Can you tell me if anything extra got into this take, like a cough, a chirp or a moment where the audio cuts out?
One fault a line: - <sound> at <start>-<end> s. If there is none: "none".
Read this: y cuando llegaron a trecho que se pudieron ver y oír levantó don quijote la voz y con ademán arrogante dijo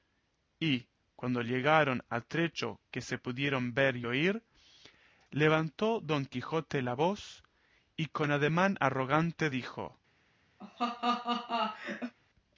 - laugh at 10.6-12.1 s